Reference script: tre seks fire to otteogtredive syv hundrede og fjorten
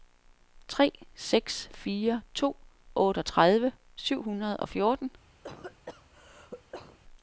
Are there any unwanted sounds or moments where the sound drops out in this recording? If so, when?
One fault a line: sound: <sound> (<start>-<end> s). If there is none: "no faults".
sound: cough (5.4-7.0 s)